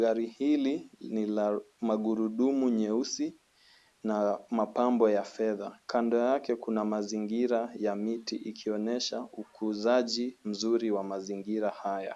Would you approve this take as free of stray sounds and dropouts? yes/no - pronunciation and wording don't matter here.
yes